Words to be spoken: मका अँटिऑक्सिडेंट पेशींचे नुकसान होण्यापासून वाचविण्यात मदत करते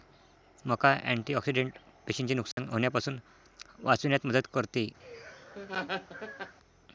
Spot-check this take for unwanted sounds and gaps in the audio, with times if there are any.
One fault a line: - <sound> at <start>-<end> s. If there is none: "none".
- dropout at 2.5-2.6 s
- laugh at 5.0-6.6 s